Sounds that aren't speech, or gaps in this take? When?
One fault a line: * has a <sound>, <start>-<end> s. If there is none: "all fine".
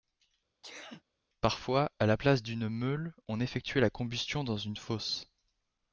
* has a sneeze, 0.6-1.0 s